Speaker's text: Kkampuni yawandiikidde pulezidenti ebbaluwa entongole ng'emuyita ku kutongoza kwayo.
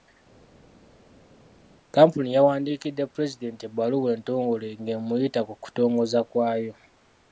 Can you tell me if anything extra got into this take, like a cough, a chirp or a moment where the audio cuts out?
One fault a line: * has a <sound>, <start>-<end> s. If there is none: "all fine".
all fine